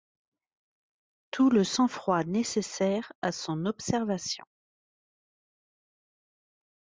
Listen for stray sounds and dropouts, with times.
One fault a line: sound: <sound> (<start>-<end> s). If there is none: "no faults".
no faults